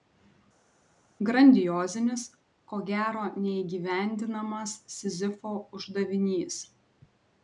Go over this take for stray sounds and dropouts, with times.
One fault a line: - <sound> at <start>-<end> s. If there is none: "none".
none